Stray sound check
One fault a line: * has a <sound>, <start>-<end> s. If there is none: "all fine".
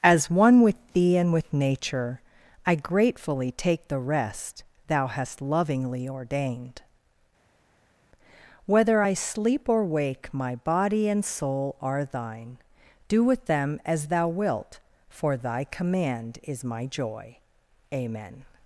all fine